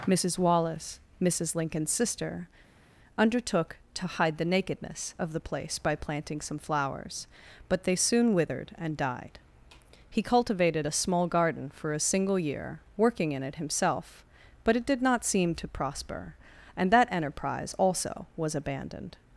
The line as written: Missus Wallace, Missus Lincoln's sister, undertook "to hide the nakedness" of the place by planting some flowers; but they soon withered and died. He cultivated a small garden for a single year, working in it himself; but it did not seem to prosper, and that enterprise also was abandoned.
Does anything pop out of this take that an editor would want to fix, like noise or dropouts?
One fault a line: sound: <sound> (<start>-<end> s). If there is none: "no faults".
no faults